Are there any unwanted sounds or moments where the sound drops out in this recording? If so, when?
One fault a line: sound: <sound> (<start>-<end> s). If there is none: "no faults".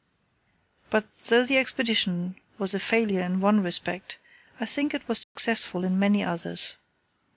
sound: dropout (5.2-5.4 s)